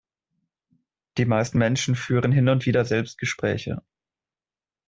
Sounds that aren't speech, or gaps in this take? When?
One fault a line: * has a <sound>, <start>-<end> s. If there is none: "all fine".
all fine